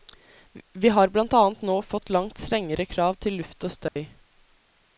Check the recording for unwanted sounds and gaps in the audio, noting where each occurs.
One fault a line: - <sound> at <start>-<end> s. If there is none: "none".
- dropout at 3.9-4.0 s